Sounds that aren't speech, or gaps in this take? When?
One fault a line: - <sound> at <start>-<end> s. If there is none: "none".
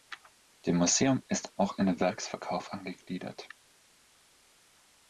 none